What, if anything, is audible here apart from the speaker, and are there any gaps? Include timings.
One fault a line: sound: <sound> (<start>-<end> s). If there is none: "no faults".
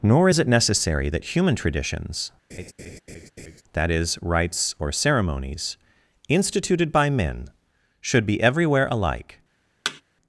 sound: laugh (2.5-3.6 s)
sound: thud (9.8-10.0 s)